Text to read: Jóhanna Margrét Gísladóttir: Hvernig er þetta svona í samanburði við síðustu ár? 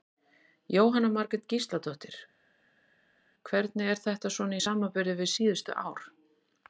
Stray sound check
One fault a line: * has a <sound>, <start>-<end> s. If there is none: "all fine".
all fine